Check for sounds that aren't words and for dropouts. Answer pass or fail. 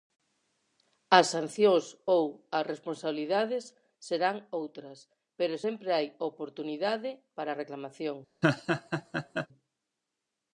fail